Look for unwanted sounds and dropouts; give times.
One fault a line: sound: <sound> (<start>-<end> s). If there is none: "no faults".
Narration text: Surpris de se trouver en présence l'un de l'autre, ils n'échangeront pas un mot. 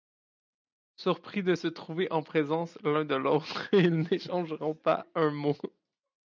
no faults